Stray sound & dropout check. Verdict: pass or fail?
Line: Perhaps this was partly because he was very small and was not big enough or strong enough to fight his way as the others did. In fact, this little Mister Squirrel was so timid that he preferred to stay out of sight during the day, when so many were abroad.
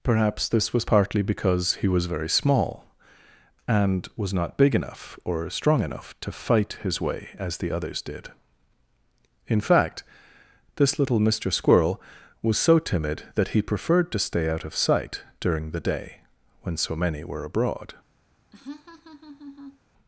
fail